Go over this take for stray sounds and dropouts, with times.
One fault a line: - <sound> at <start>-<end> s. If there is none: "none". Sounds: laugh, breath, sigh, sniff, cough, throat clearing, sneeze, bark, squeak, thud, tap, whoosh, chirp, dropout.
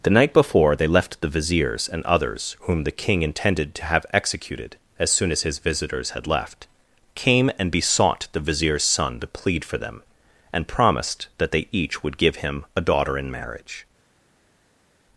none